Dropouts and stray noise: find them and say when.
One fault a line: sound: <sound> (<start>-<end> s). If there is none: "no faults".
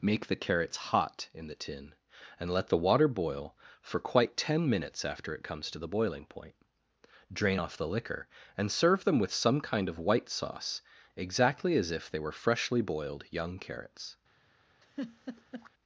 sound: laugh (14.8-15.7 s)